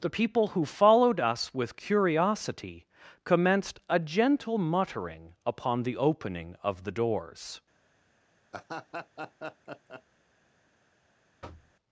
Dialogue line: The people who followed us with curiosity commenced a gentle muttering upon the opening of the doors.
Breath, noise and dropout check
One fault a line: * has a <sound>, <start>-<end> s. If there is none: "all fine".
* has a laugh, 8.5-10.0 s
* has a thud, 11.4-11.7 s